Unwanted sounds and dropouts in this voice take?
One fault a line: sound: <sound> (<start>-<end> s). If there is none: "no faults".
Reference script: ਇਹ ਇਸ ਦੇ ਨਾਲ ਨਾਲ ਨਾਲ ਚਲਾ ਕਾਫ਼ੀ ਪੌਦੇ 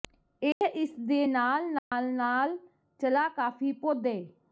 sound: dropout (0.5-0.6 s)
sound: dropout (1.8-1.9 s)